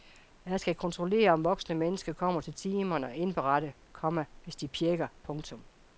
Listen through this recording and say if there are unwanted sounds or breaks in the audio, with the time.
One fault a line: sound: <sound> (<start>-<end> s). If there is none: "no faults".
no faults